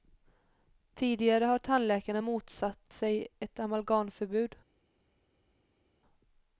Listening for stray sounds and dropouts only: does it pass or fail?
pass